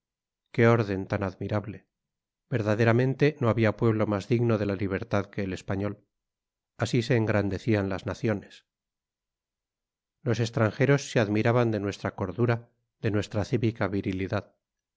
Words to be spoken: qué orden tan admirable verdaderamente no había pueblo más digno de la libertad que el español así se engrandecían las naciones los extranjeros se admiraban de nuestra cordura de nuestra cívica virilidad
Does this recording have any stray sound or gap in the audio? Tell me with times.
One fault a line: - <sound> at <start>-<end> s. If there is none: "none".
none